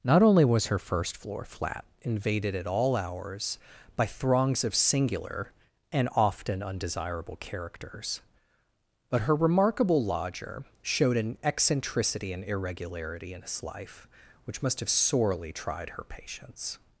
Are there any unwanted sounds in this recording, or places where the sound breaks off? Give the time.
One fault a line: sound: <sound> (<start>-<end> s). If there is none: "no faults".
no faults